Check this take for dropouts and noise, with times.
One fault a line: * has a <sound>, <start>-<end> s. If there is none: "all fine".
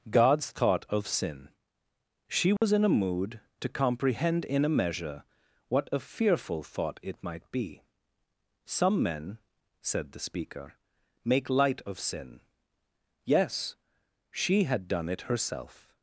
* has a dropout, 2.6-2.6 s